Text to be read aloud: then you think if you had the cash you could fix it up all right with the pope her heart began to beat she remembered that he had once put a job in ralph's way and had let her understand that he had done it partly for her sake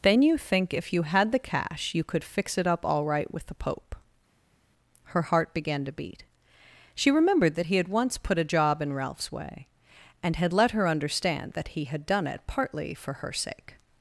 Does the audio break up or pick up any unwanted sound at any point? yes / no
no